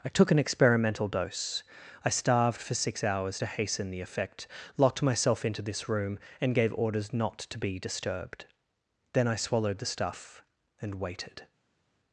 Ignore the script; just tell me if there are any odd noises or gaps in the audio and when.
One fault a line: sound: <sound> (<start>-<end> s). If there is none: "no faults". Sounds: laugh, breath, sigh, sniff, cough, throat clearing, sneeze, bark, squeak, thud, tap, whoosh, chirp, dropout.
no faults